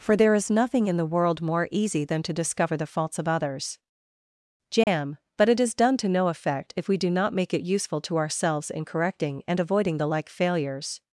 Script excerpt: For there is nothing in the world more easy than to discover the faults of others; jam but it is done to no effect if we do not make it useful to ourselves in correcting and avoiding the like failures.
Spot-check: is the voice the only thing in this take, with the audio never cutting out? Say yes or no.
no